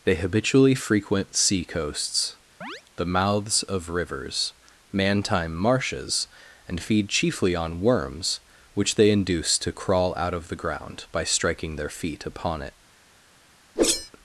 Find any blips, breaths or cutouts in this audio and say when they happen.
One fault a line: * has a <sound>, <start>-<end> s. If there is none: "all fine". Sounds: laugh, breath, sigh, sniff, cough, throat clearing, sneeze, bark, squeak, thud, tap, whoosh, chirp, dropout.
* has a chirp, 2.6-2.8 s
* has a whoosh, 13.8-14.1 s